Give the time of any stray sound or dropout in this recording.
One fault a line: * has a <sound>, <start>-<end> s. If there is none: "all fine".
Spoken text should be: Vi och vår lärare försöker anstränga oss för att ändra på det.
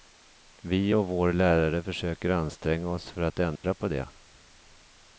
* has a dropout, 3.6-3.6 s